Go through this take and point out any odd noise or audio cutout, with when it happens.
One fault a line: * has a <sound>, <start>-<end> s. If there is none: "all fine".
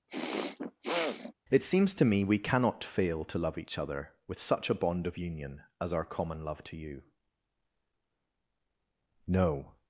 * has a throat clearing, 0.1-1.3 s